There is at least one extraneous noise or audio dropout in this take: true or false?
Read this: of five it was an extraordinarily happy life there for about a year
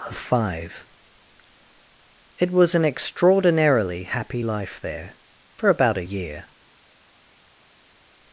false